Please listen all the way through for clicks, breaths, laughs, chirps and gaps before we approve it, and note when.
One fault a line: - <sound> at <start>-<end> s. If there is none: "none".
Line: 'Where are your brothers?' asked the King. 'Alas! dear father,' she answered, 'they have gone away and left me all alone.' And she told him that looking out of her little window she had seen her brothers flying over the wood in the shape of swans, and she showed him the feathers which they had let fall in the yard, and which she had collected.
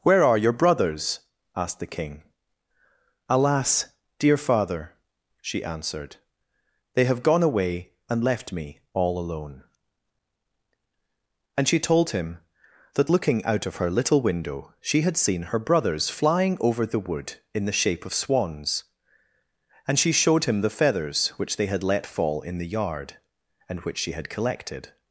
none